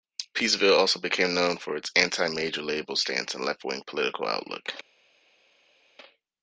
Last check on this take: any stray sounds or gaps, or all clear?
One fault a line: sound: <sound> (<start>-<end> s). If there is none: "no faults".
no faults